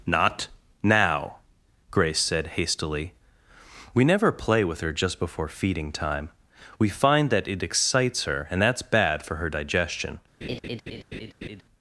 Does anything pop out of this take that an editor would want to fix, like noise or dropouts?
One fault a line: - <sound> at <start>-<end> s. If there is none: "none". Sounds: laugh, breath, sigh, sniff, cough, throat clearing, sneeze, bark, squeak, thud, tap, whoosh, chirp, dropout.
- laugh at 10.4-11.6 s